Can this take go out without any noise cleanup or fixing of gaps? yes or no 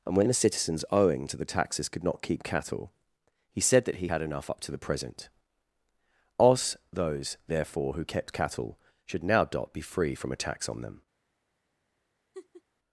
no